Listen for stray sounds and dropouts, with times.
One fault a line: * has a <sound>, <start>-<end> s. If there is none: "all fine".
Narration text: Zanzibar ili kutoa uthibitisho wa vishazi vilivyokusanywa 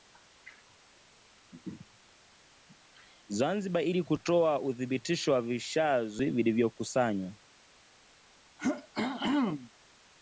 * has a throat clearing, 8.6-9.7 s